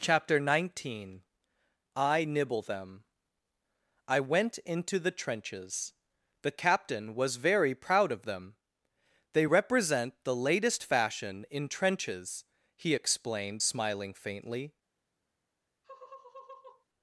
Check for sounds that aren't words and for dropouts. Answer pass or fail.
fail